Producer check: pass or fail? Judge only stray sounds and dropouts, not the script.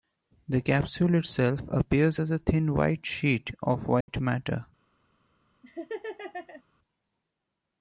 fail